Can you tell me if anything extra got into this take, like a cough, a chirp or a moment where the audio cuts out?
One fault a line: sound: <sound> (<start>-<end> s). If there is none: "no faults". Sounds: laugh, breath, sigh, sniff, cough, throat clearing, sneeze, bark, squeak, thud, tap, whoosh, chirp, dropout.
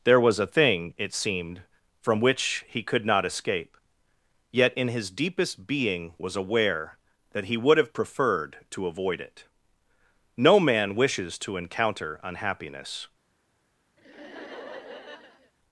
sound: laugh (14.0-15.5 s)